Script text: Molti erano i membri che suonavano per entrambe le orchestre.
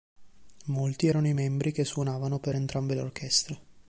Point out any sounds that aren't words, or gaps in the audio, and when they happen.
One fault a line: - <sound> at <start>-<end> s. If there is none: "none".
none